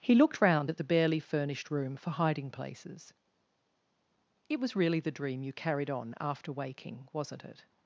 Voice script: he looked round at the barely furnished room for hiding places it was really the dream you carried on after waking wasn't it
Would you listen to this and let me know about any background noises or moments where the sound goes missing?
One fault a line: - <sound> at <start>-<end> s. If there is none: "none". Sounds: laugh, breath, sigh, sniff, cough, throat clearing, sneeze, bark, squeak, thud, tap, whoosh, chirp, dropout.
none